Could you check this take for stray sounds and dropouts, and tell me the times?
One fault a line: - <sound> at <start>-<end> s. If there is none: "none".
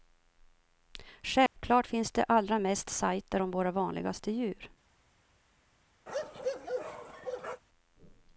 - dropout at 1.5-1.6 s
- bark at 6.1-7.6 s